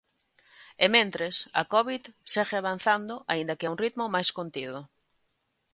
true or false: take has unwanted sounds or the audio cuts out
false